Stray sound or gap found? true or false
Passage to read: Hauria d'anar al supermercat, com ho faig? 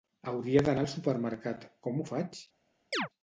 true